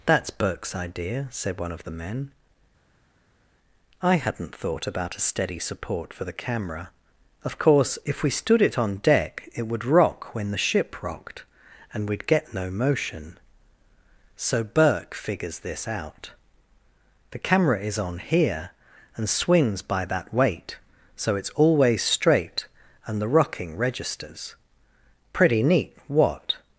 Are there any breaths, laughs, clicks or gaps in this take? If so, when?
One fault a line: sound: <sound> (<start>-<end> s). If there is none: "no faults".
no faults